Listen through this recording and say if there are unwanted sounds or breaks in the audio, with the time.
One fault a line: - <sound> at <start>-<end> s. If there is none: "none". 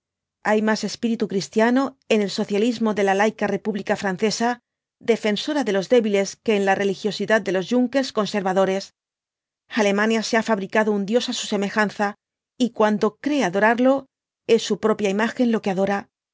none